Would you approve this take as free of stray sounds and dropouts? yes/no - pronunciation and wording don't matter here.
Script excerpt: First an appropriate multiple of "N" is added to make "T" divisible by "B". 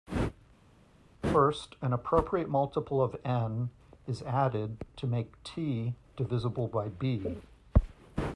yes